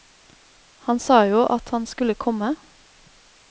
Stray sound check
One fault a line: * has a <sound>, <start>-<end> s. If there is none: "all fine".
all fine